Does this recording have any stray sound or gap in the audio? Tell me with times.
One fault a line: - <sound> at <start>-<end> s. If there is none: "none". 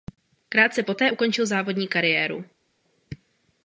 none